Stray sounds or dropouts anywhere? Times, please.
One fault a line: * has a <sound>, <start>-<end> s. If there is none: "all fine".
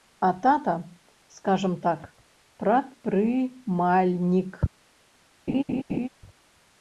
* has a laugh, 5.5-6.1 s